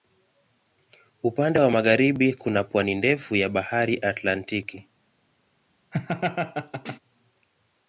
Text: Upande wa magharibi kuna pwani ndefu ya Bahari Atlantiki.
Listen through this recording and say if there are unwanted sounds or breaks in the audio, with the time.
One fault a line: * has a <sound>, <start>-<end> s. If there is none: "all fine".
* has a laugh, 5.9-7.0 s